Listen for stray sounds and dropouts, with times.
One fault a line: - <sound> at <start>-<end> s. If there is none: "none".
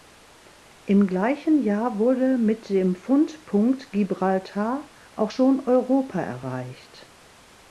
none